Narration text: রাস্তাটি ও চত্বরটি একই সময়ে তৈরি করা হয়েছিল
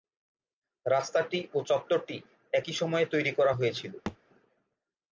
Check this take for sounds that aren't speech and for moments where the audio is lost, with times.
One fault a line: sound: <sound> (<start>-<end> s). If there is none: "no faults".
sound: thud (4.1-4.2 s)